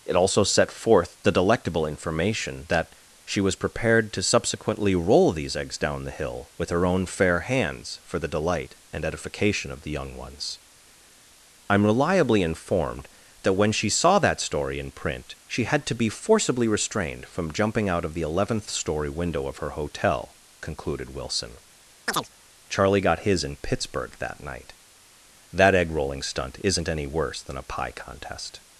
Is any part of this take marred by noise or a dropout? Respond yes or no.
yes